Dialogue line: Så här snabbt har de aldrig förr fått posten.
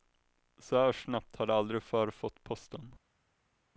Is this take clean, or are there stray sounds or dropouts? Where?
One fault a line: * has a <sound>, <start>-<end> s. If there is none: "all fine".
all fine